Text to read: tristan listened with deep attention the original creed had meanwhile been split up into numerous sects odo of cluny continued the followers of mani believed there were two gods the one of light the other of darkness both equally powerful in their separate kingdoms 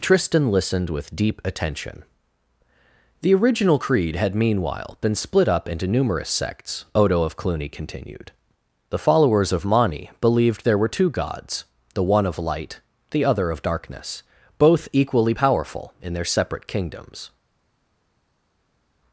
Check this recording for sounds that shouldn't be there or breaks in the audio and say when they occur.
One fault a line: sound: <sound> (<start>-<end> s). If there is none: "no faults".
no faults